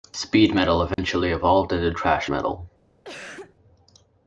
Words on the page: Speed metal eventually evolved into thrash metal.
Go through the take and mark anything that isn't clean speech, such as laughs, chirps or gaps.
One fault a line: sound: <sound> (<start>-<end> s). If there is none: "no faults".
sound: dropout (0.9-1.0 s)
sound: cough (3.0-3.6 s)